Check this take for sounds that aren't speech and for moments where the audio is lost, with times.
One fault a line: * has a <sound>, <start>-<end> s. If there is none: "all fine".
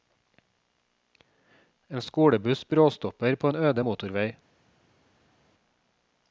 all fine